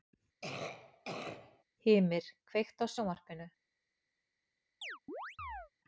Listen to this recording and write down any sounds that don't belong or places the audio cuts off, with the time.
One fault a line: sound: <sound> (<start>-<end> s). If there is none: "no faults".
sound: cough (0.4-1.6 s)
sound: chirp (4.8-5.7 s)